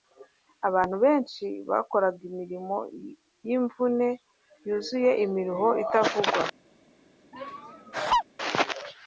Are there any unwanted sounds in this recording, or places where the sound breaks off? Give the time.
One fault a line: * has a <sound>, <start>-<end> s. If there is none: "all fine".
* has a laugh, 7.3-8.2 s